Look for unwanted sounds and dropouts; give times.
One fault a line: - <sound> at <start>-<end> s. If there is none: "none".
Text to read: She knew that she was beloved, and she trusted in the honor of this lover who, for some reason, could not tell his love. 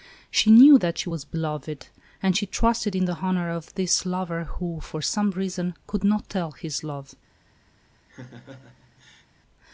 - laugh at 8.1-9.3 s